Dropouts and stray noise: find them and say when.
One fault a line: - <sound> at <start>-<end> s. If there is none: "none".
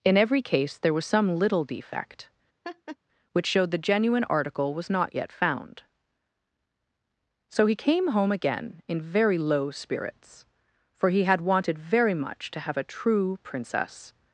- laugh at 2.6-3.0 s